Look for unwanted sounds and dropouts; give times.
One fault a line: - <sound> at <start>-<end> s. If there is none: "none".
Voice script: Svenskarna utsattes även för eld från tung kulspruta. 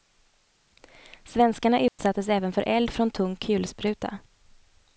- dropout at 1.9-2.0 s